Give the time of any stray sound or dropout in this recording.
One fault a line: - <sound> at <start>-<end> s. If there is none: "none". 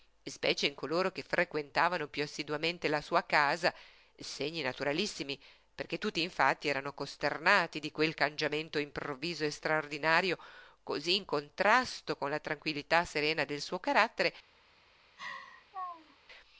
- laugh at 15.2-16.2 s